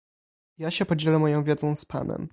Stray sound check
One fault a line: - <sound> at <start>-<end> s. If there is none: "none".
none